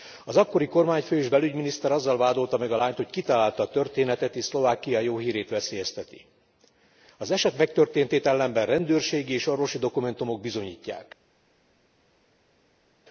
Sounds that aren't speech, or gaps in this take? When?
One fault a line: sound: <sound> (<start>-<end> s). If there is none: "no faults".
no faults